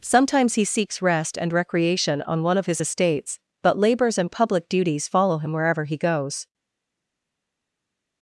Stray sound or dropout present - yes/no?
no